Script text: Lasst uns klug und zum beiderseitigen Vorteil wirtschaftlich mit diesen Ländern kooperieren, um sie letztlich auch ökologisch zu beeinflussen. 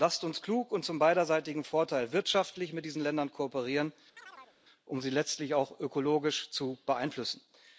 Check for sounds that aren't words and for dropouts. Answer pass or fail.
fail